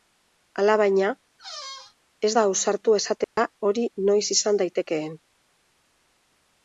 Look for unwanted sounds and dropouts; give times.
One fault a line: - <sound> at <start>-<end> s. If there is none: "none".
- squeak at 1.4-2.0 s
- dropout at 3.2-3.4 s